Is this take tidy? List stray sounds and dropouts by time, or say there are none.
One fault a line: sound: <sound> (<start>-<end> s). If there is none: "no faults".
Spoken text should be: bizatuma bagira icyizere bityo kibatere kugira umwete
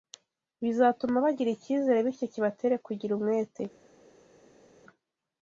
no faults